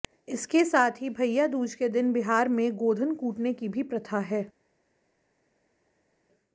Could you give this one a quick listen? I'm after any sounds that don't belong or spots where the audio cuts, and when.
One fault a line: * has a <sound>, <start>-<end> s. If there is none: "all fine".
all fine